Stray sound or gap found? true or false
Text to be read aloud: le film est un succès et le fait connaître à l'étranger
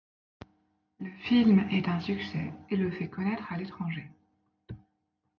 false